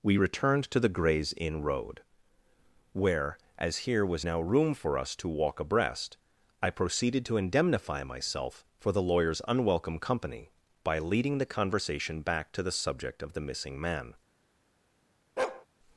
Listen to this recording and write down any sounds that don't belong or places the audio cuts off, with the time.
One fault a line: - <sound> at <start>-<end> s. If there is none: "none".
- bark at 15.4-15.7 s